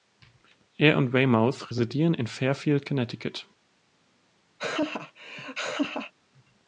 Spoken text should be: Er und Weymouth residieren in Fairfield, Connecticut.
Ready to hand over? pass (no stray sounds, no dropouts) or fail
fail